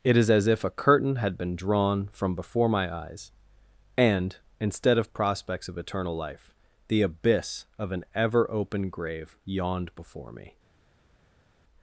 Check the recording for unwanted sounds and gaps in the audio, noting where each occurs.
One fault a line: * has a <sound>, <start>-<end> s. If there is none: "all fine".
all fine